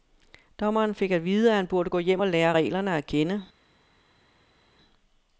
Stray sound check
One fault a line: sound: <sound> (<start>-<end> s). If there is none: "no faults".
no faults